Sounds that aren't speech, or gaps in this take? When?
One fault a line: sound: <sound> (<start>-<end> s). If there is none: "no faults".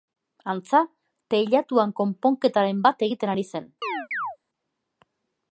sound: chirp (3.8-4.4 s)